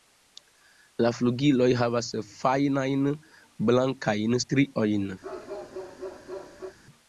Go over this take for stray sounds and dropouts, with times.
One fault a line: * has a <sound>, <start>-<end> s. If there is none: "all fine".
* has a bark, 5.2-6.8 s